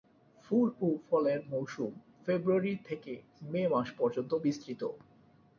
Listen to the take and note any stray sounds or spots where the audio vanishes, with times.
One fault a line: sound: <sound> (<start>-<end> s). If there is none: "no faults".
no faults